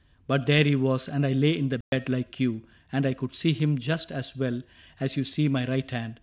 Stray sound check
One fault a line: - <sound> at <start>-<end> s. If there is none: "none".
- dropout at 1.8-1.9 s